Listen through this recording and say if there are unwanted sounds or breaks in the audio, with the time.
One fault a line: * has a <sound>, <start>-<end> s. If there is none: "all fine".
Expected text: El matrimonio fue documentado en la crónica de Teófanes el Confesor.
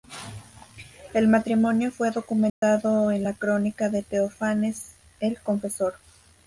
* has a dropout, 2.5-2.6 s